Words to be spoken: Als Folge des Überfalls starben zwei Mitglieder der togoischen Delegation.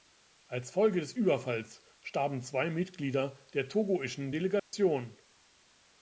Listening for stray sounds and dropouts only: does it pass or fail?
fail